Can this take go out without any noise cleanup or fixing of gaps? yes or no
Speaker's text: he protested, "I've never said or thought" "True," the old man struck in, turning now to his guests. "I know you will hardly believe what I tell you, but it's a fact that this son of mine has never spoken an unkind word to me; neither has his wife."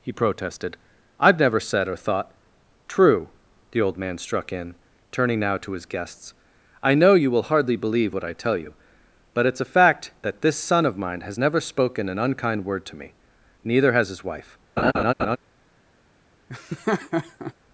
no